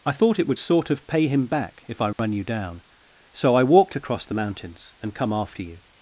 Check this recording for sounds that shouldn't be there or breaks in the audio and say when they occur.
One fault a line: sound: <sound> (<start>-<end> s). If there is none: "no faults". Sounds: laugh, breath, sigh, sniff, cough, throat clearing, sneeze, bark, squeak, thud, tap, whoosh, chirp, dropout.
sound: dropout (2.1-2.2 s)